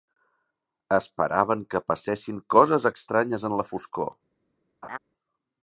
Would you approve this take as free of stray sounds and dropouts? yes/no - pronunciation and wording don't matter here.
no